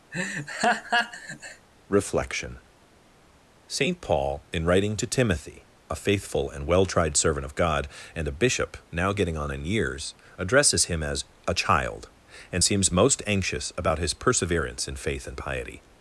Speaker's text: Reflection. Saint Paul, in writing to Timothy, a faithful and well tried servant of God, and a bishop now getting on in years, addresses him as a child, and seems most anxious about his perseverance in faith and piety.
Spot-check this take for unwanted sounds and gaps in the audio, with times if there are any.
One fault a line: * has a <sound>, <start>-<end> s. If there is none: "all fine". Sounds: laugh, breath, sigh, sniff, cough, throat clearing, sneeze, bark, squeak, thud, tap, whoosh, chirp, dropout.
* has a laugh, 0.1-1.7 s